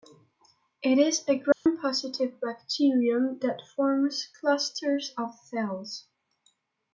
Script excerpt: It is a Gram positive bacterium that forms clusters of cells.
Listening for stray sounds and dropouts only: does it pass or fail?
fail